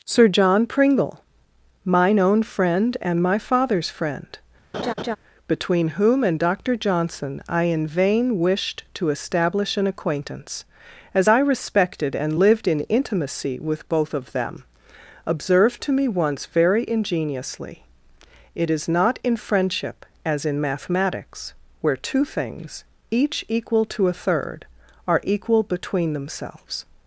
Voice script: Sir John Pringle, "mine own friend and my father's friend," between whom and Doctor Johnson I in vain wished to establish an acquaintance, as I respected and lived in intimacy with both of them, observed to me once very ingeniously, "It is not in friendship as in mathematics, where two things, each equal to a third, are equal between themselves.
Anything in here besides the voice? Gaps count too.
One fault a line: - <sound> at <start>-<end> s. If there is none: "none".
- laugh at 4.7-5.2 s